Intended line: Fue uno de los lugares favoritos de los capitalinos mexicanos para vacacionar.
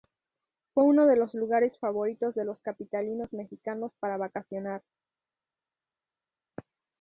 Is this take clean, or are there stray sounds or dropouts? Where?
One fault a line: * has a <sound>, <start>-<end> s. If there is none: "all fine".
all fine